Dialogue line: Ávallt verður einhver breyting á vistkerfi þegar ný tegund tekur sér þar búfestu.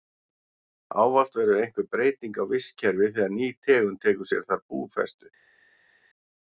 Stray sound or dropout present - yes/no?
no